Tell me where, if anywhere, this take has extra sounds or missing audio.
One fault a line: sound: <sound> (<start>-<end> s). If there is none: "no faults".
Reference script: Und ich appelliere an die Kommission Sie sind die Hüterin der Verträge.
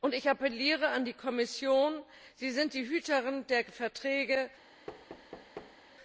sound: thud (4.9-5.8 s)